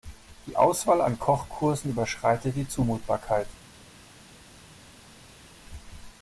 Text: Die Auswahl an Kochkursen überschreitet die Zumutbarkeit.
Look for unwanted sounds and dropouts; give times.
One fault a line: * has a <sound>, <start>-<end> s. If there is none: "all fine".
all fine